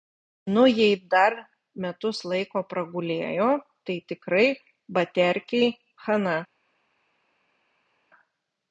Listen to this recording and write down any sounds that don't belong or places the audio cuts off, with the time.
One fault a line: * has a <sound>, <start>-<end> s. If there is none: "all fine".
all fine